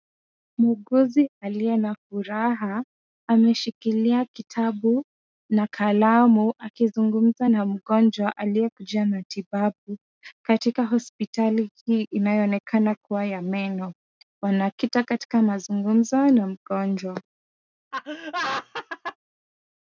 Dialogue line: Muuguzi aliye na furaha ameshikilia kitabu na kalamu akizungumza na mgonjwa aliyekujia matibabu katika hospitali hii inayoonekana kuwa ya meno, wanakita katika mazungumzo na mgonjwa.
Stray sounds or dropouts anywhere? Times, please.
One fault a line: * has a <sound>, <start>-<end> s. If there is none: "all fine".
* has a laugh, 17.9-19.2 s